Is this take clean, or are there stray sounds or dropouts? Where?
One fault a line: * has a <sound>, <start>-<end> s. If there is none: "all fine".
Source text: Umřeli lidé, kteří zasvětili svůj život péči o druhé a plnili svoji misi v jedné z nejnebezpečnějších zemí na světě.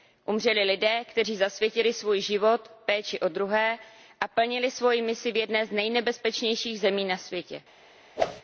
* has a whoosh, 8.2-8.4 s